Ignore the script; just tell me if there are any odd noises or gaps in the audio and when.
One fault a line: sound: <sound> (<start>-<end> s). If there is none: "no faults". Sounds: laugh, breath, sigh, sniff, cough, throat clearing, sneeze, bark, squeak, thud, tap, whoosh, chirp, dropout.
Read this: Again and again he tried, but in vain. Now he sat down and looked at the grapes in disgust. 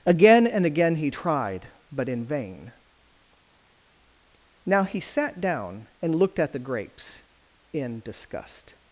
no faults